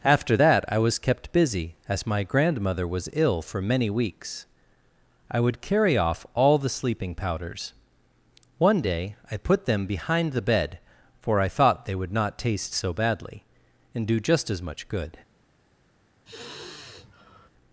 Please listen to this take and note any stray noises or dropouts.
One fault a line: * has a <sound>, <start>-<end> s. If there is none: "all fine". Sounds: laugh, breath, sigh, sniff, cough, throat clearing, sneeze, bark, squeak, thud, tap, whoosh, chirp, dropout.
* has a sigh, 16.3-17.5 s